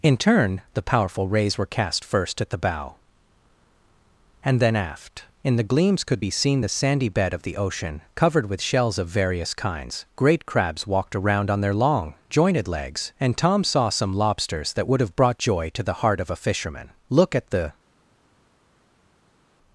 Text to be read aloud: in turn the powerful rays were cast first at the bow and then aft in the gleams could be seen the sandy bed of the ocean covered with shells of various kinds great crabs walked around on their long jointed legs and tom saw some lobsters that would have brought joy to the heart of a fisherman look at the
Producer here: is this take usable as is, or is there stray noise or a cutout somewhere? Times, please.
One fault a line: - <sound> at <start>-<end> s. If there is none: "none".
none